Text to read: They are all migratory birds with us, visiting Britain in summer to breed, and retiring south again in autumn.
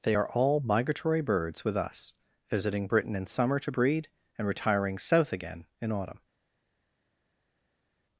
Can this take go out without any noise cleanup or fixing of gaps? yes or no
yes